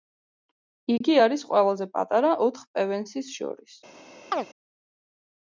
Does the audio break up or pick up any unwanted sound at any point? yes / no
yes